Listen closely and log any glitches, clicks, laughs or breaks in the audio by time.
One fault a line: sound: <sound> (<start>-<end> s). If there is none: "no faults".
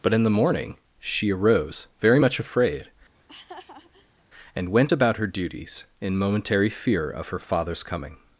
sound: laugh (3.1-4.2 s)